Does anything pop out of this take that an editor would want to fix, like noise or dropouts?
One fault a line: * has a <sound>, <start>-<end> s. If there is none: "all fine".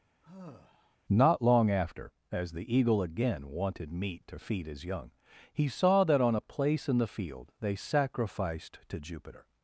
* has a sigh, 0.2-1.0 s